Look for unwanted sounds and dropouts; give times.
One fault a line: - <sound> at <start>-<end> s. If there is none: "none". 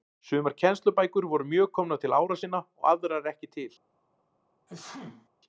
- sneeze at 4.7-5.3 s